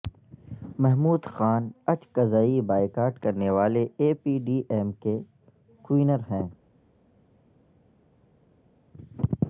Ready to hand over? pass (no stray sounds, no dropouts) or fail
pass